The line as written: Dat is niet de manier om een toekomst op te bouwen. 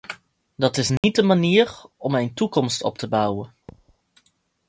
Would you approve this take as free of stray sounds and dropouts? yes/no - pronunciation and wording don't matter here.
no